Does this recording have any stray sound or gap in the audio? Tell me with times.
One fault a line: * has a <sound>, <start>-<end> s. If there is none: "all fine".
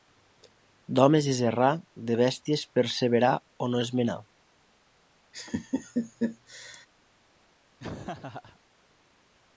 * has a laugh, 5.3-6.9 s
* has a laugh, 7.8-8.6 s